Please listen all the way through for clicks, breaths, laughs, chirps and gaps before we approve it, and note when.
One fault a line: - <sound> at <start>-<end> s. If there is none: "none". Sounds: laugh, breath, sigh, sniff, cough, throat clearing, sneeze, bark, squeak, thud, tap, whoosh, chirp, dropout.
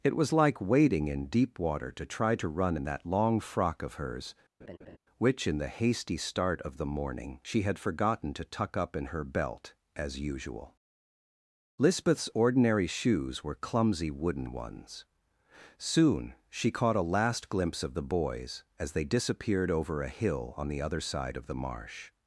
- laugh at 4.6-5.0 s